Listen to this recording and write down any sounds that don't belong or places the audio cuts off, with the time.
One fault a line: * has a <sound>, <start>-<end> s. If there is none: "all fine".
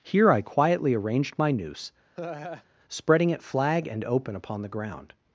* has a laugh, 2.1-2.6 s